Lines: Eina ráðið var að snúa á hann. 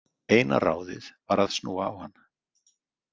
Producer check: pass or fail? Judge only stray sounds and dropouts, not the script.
pass